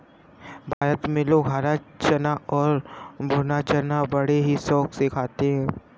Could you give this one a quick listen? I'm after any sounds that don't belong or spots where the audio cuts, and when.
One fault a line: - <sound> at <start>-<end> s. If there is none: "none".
- dropout at 0.7-0.8 s